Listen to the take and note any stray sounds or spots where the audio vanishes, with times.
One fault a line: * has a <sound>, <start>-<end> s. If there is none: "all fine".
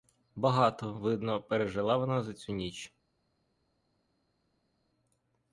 all fine